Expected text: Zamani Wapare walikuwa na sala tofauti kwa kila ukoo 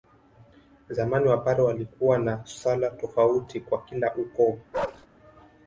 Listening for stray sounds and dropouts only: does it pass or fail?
fail